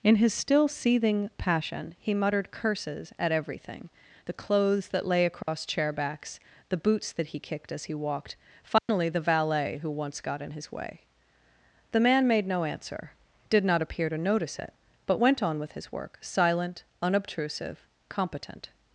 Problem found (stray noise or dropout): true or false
true